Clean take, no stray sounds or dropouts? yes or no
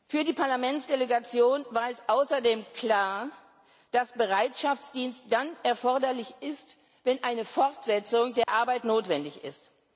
no